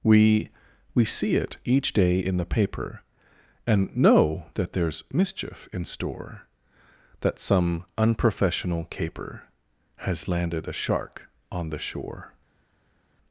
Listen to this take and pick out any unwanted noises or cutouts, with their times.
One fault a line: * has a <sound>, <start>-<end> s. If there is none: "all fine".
all fine